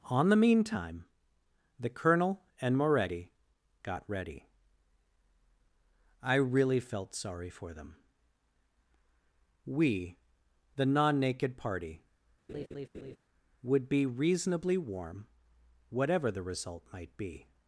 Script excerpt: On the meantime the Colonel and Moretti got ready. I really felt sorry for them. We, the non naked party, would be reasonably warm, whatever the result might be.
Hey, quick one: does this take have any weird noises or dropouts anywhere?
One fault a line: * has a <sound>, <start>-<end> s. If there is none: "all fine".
* has a laugh, 12.5-13.2 s